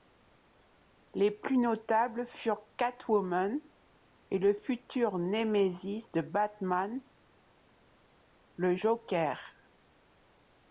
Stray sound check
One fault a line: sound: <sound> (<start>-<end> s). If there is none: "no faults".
no faults